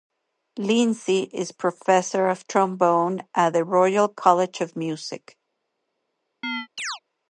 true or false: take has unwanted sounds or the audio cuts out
true